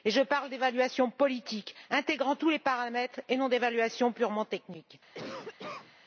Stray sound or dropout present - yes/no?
yes